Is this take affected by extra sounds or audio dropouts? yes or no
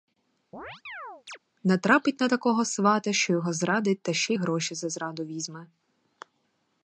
yes